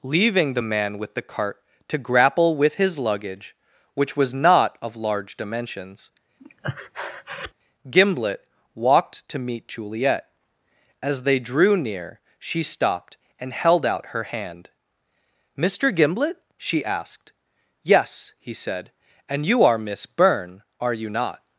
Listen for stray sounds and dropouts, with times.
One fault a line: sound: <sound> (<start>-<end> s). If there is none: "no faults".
sound: breath (6.4-7.5 s)